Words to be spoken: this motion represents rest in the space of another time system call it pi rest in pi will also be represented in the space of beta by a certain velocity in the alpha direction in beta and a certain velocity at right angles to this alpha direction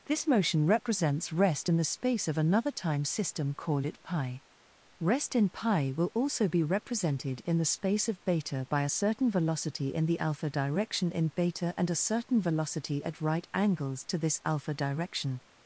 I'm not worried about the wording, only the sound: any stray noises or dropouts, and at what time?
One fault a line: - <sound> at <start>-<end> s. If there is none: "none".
none